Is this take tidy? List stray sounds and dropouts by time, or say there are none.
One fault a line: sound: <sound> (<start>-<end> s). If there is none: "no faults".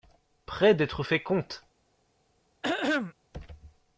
sound: throat clearing (2.6-3.1 s)